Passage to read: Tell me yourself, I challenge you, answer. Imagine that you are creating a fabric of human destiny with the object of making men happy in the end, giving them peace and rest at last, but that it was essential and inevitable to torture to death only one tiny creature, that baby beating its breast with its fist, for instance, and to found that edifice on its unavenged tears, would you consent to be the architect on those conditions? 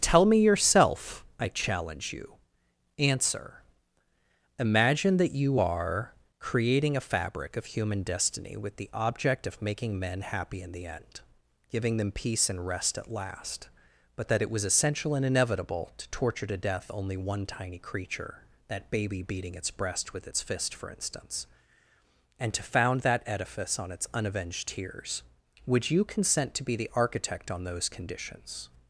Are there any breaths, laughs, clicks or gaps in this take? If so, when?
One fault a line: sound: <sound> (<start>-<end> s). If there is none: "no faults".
no faults